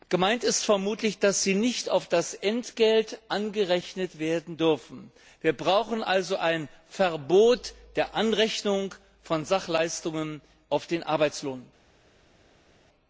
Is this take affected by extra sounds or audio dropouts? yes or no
no